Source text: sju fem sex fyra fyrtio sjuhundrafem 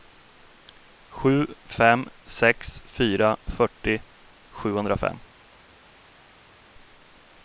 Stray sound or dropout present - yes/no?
no